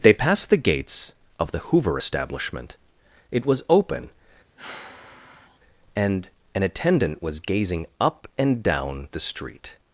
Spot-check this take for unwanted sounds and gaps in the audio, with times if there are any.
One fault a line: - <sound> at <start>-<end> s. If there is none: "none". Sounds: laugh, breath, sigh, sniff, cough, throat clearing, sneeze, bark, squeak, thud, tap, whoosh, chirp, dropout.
- sigh at 4.6-5.6 s